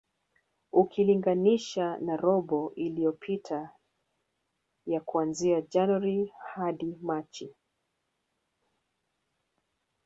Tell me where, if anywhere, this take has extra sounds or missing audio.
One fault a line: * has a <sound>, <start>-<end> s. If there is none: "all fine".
all fine